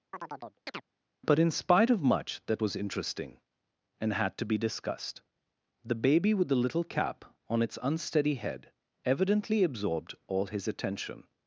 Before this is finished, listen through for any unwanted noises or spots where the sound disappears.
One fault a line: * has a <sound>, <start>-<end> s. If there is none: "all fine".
* has a chirp, 0.1-0.8 s